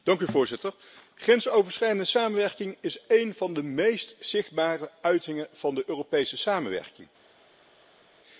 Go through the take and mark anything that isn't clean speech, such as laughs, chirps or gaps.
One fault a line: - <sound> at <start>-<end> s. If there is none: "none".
none